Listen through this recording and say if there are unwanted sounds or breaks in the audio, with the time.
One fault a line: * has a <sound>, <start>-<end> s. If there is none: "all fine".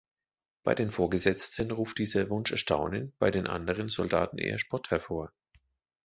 all fine